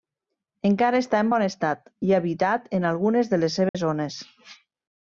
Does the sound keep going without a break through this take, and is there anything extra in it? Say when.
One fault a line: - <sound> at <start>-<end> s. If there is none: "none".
- dropout at 3.7-3.7 s